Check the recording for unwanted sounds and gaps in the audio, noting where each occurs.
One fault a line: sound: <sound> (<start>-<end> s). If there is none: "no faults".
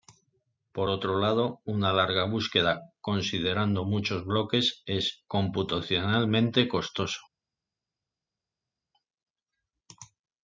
no faults